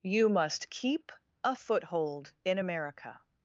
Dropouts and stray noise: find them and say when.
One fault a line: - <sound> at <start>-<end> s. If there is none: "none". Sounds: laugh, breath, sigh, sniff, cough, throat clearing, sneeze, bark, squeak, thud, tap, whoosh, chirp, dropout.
none